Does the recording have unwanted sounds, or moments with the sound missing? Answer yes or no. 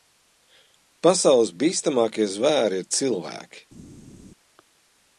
no